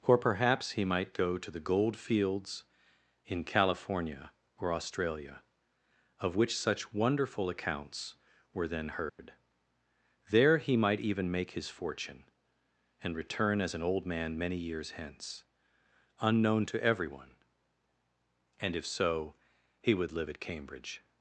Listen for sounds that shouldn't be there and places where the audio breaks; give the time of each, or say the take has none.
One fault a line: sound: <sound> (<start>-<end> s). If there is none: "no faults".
sound: dropout (9.1-9.2 s)